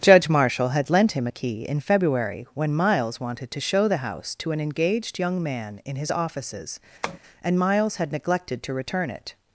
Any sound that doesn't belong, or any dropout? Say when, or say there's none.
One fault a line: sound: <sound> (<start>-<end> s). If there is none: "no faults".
sound: tap (7.0-7.2 s)